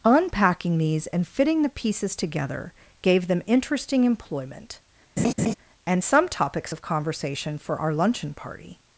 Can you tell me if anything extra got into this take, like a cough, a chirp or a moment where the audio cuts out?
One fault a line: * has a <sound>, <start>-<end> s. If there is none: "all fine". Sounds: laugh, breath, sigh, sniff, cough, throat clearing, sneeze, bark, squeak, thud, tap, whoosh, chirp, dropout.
* has a laugh, 5.2-5.5 s